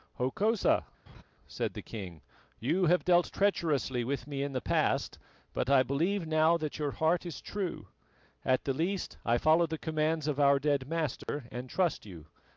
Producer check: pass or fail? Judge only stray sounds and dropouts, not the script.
fail